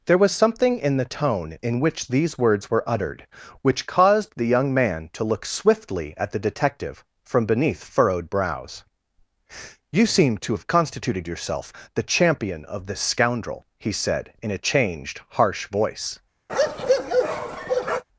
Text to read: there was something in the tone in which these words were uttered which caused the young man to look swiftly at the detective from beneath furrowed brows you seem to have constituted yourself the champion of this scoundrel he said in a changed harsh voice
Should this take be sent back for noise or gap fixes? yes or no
yes